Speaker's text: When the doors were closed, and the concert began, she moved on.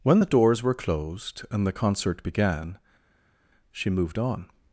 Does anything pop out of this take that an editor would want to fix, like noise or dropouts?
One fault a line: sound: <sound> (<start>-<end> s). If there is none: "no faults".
no faults